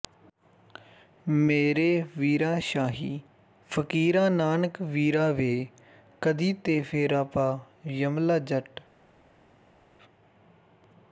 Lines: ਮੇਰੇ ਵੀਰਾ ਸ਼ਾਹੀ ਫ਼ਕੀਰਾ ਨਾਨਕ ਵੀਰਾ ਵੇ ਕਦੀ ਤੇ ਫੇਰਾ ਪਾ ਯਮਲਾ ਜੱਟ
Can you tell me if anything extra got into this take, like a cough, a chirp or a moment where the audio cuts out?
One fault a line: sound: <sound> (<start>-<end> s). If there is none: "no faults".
no faults